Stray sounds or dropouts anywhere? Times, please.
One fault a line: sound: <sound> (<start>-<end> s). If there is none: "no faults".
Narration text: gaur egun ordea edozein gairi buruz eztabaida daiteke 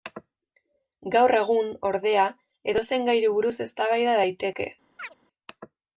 sound: chirp (5.0-5.1 s)